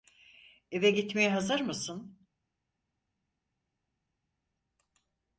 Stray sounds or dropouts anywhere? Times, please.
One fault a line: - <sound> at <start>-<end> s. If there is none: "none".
none